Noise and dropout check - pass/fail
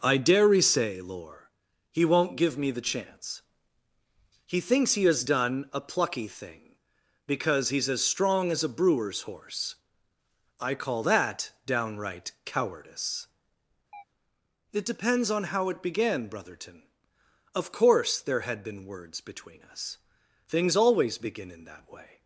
fail